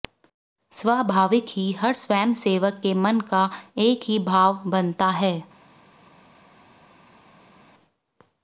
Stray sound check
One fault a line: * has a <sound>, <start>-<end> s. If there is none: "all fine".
all fine